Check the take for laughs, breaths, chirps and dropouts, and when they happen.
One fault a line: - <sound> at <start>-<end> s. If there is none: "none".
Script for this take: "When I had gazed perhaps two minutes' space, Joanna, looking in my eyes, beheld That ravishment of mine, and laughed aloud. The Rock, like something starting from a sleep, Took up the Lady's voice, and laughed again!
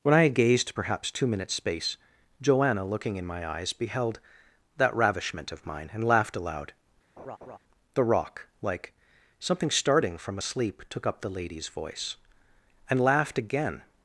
- laugh at 7.2-7.6 s